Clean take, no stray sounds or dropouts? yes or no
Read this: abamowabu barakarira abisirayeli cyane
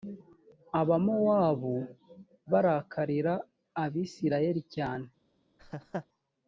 no